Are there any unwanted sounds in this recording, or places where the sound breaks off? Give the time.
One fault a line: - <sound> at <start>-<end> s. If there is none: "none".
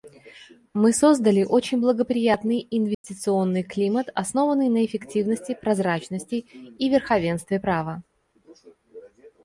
- dropout at 2.9-3.0 s